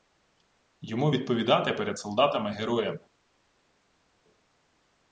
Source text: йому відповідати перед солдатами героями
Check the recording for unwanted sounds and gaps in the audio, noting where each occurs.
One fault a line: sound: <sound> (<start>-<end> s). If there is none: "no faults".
no faults